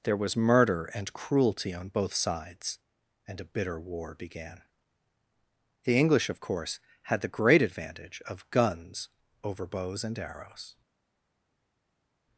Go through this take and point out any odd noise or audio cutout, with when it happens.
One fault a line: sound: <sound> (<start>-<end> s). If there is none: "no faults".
no faults